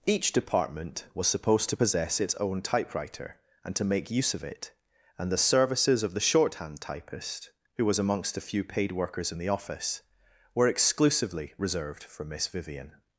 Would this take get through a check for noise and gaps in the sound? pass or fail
pass